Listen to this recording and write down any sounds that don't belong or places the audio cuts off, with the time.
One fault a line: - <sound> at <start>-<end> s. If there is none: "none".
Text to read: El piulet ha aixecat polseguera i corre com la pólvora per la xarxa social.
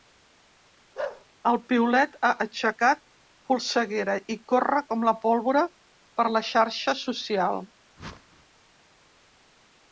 - bark at 0.9-1.2 s
- whoosh at 8.0-8.5 s